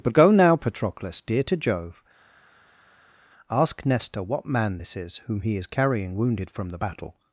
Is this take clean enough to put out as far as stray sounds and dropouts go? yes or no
yes